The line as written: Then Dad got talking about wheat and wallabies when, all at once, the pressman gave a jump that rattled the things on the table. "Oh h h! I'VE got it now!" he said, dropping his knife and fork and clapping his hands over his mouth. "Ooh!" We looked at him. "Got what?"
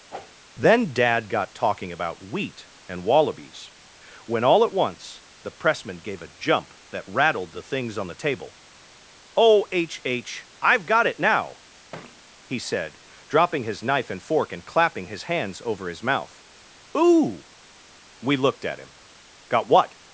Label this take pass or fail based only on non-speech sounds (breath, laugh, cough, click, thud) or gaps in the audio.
fail